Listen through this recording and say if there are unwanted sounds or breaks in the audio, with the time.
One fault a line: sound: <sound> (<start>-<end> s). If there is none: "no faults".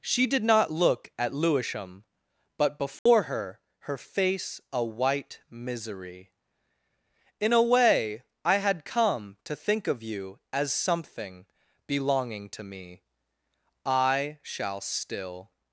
sound: dropout (3.0-3.1 s)